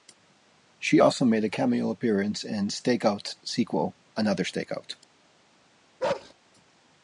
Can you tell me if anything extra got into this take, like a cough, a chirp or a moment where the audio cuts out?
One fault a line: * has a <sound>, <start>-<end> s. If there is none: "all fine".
* has a bark, 6.0-6.3 s